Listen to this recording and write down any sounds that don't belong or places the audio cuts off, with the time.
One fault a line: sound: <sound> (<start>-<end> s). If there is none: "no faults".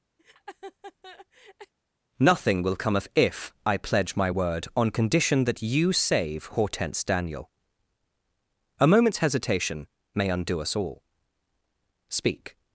sound: laugh (0.2-1.7 s)